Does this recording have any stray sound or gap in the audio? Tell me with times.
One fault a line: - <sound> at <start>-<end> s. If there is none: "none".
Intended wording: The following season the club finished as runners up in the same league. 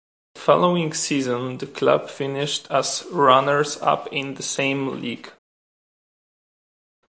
none